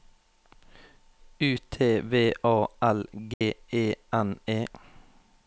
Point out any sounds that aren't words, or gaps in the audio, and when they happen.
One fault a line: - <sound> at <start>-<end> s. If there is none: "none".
- dropout at 3.3-3.4 s